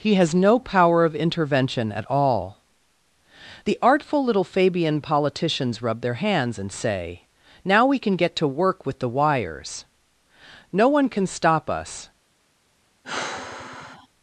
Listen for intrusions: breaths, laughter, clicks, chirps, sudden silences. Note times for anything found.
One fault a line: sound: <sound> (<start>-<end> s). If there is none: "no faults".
sound: sigh (13.0-14.1 s)